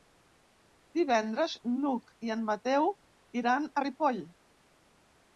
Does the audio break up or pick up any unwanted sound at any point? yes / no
no